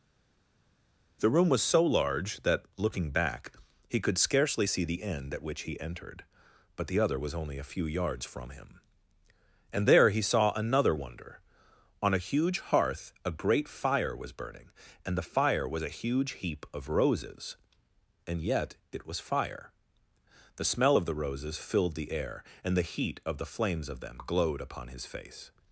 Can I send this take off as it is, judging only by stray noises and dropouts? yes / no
yes